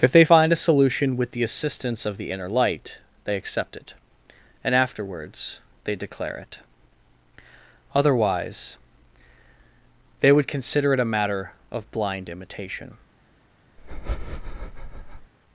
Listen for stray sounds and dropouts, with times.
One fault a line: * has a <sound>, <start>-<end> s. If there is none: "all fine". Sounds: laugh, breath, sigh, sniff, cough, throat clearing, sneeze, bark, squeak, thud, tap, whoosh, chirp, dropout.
* has a breath, 13.8-15.3 s